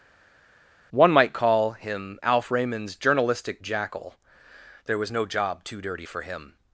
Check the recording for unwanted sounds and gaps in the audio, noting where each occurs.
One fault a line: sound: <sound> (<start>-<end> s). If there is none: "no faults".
no faults